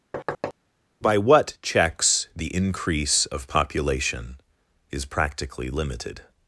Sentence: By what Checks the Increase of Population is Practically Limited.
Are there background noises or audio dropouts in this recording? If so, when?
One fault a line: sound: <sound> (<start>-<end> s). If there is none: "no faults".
sound: thud (0.1-0.5 s)